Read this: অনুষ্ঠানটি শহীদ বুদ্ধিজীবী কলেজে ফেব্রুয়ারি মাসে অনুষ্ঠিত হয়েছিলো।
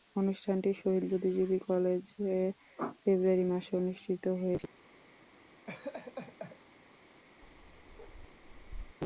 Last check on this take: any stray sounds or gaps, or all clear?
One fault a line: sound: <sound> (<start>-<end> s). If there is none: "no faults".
sound: laugh (5.7-6.6 s)
sound: bark (7.4-9.0 s)